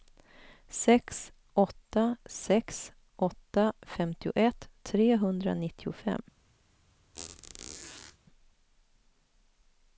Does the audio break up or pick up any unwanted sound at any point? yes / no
yes